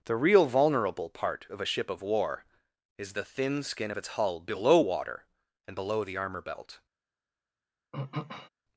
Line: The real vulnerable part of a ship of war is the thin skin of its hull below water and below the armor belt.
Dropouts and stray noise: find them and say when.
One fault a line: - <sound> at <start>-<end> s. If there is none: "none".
- throat clearing at 7.9-8.5 s